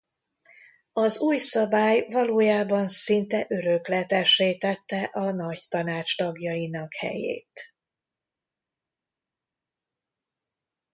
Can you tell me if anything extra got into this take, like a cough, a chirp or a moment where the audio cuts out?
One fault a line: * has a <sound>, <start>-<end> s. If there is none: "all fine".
all fine